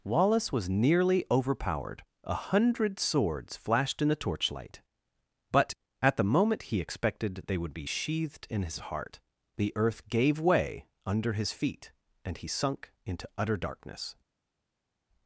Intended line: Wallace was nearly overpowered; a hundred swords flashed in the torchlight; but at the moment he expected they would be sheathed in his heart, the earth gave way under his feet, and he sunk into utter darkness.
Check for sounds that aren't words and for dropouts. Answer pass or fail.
pass